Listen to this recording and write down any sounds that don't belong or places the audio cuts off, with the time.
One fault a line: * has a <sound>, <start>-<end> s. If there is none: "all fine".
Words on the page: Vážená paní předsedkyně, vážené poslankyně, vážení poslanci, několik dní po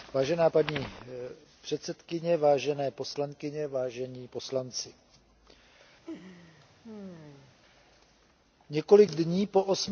* has a laugh, 6.0-7.5 s